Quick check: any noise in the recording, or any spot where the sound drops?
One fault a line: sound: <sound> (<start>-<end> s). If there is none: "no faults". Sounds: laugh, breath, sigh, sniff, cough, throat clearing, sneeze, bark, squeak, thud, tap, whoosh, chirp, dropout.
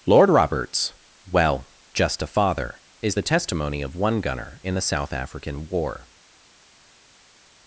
no faults